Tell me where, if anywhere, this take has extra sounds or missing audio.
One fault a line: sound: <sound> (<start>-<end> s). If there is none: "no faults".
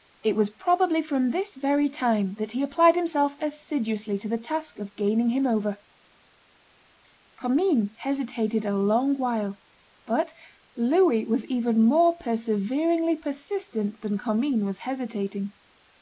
no faults